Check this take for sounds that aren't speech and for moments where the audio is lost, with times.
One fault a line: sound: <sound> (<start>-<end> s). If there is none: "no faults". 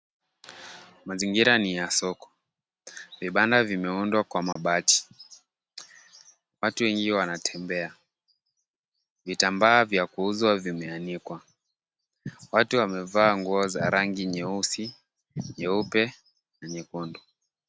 sound: dropout (4.5-4.6 s)